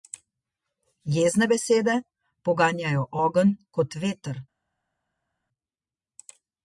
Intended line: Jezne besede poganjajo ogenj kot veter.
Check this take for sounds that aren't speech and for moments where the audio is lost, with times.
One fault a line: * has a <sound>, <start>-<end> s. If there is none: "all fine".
all fine